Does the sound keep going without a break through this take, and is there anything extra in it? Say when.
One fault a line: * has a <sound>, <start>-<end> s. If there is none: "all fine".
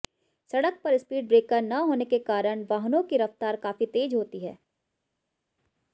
all fine